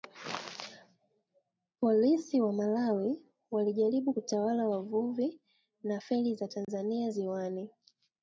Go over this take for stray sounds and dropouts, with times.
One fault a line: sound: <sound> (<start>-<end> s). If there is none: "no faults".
sound: dropout (6.6-6.7 s)